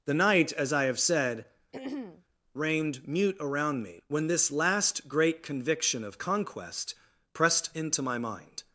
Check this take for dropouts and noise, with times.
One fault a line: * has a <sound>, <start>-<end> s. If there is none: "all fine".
* has a throat clearing, 1.7-2.2 s